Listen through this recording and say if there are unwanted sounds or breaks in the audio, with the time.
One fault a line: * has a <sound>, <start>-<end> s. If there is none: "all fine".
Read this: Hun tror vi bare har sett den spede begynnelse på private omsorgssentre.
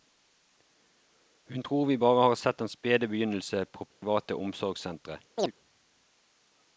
* has a dropout, 3.9-4.0 s
* has a chirp, 5.4-5.5 s